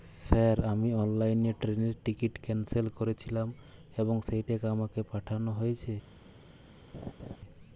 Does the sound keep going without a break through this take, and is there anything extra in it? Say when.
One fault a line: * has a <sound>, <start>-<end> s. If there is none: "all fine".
* has a laugh, 6.9-7.4 s